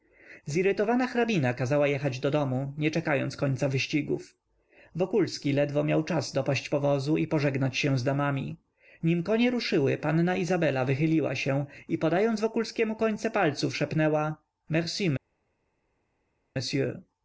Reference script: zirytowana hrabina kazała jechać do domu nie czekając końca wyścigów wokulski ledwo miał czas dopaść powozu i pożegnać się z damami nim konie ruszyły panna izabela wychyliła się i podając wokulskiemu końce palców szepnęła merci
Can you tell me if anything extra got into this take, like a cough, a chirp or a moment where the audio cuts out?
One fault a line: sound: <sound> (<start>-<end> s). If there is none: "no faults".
no faults